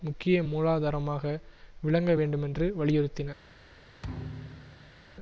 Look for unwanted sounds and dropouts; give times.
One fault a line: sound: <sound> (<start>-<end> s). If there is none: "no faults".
sound: thud (4.0-5.0 s)